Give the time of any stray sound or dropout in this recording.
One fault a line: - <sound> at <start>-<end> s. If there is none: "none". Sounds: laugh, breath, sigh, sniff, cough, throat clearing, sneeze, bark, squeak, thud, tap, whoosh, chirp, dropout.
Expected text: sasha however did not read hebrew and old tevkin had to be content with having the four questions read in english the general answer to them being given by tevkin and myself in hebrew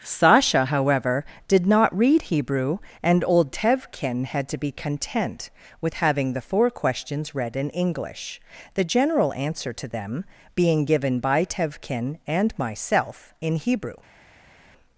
none